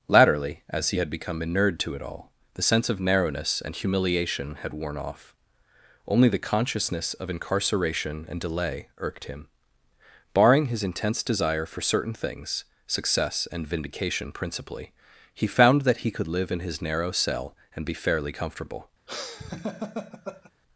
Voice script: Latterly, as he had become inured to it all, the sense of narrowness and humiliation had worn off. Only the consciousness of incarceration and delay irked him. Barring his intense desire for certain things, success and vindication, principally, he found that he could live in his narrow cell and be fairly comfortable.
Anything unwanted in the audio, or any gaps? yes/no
yes